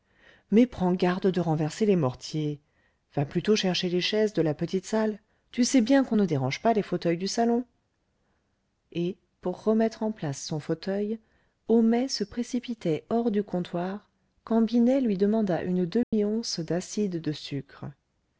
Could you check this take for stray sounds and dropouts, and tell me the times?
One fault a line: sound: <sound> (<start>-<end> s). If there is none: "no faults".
sound: dropout (16.0-16.1 s)